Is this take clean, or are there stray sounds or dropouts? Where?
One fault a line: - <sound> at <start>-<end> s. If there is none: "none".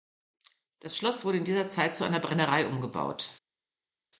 none